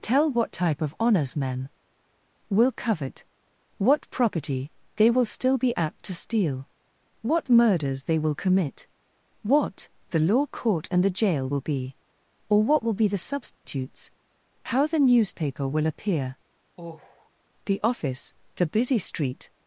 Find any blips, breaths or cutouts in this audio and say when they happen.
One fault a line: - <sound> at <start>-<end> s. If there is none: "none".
- dropout at 13.5-13.7 s
- sigh at 16.8-17.3 s